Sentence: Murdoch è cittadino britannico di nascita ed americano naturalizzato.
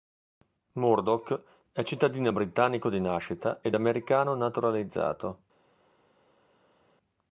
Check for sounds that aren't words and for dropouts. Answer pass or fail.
pass